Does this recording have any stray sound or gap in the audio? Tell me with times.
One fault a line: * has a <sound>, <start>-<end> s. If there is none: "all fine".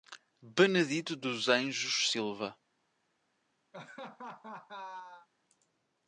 * has a laugh, 3.7-5.3 s